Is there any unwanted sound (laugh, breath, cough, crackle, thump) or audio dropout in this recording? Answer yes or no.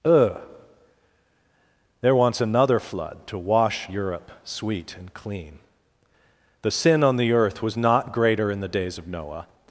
no